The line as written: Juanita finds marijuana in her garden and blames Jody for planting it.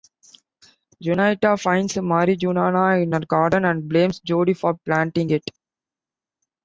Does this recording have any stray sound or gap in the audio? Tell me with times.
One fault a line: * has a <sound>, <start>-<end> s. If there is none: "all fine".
all fine